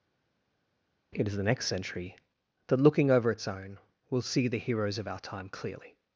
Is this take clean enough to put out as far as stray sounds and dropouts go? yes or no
yes